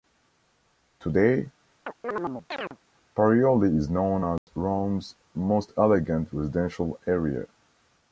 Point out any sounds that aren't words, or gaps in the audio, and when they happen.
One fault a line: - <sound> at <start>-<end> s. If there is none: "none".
- chirp at 1.9-2.8 s
- dropout at 4.4-4.5 s